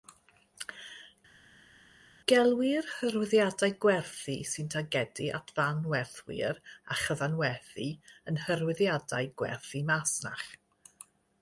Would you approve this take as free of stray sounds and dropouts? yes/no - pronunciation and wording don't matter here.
yes